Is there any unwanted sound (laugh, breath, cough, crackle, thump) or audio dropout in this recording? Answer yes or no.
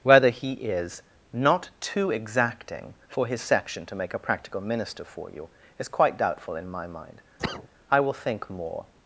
yes